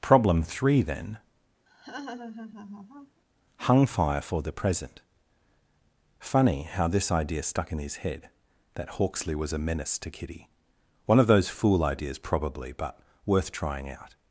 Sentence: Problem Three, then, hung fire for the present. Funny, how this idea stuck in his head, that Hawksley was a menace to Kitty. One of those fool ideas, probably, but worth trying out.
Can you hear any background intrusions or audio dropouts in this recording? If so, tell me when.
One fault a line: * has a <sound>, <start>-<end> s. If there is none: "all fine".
* has a laugh, 1.7-3.2 s